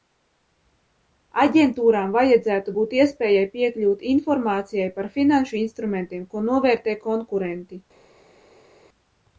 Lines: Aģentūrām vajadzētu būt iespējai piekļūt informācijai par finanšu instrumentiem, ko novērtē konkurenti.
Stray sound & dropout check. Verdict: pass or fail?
pass